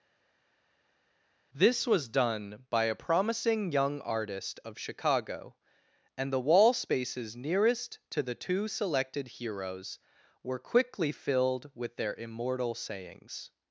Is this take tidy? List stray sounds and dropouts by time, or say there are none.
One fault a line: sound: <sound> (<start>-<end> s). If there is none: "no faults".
no faults